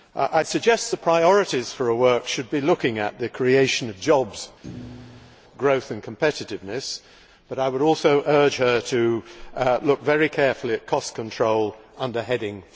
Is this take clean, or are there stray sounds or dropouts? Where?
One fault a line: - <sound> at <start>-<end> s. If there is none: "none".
- thud at 4.6-5.4 s